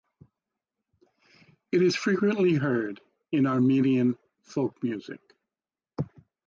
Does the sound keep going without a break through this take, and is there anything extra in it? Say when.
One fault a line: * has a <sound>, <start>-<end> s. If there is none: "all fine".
all fine